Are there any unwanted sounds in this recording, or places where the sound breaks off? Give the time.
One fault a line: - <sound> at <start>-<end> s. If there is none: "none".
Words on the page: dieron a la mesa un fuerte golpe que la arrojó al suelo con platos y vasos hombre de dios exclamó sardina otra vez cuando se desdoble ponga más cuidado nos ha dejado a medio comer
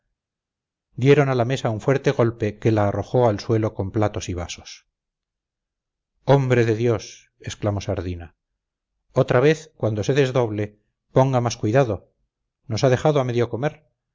none